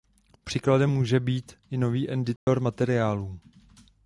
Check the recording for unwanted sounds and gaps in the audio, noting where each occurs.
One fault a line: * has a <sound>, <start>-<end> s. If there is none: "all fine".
* has a dropout, 2.4-2.5 s